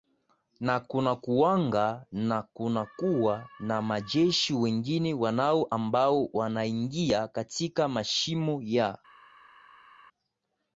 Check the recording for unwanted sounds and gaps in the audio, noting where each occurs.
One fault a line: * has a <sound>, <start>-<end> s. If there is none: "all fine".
all fine